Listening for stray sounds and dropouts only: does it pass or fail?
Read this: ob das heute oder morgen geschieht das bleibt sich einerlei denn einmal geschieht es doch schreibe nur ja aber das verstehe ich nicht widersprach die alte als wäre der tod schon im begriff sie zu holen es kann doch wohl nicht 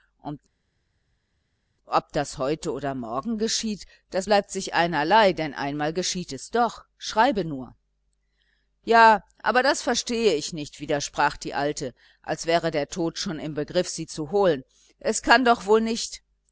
pass